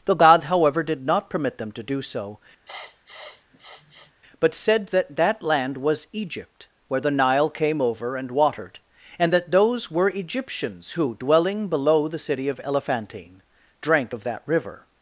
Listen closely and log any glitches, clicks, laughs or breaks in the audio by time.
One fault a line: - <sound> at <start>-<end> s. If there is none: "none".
- sniff at 2.7-4.1 s